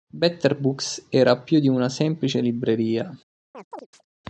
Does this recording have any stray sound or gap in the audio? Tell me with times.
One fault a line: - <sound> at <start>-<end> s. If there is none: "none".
- chirp at 3.5-4.0 s